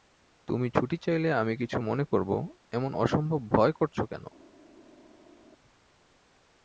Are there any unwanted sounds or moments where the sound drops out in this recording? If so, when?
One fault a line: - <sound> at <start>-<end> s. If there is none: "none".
none